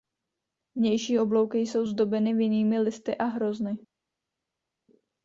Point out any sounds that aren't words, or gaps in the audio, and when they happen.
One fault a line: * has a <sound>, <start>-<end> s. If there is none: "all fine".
all fine